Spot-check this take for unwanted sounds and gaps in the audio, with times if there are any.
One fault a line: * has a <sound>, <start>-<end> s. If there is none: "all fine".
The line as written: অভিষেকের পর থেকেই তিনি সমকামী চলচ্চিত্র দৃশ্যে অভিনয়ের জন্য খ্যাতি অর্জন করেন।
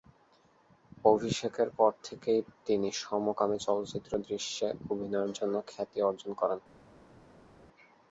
all fine